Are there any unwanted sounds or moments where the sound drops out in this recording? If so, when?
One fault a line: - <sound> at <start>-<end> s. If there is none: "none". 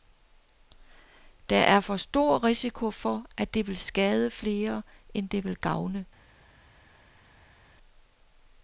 none